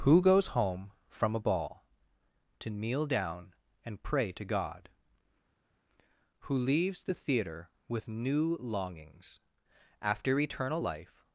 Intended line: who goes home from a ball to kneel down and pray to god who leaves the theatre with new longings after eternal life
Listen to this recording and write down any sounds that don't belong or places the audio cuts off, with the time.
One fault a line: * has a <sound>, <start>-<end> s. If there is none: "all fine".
all fine